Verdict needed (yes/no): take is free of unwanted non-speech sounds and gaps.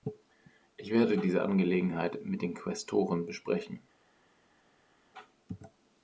yes